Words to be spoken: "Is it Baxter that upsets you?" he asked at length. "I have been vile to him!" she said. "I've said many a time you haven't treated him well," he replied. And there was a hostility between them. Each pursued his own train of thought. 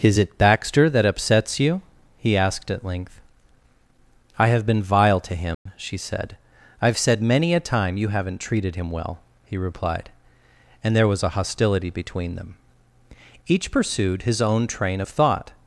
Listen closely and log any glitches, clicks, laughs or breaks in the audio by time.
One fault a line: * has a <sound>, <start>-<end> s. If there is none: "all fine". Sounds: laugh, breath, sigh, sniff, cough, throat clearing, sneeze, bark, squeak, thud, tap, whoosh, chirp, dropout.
* has a dropout, 5.5-5.7 s